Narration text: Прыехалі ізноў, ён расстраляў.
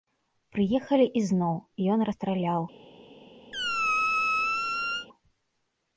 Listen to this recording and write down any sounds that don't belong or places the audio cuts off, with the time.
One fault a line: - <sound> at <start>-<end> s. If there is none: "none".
- squeak at 3.5-5.1 s